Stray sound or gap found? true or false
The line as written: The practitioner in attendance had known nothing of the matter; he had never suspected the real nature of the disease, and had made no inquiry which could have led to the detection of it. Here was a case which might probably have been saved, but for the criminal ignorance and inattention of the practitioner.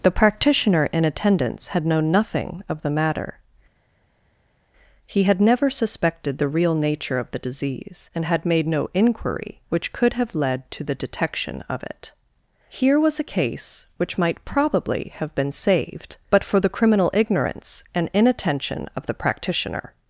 false